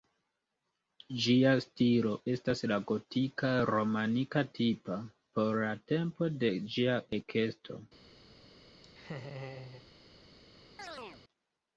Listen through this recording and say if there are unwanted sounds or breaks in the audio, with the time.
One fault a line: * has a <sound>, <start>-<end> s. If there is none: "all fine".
* has a laugh, 8.8-9.9 s
* has a chirp, 10.8-11.2 s